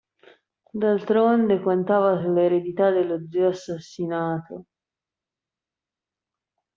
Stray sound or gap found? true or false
false